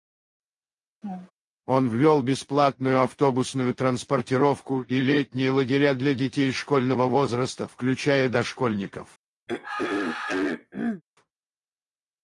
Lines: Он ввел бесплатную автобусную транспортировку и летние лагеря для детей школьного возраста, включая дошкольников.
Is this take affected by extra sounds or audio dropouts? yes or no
yes